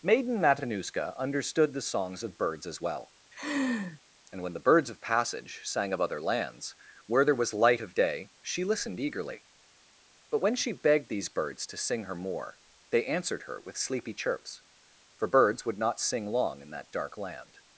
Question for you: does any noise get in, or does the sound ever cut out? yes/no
yes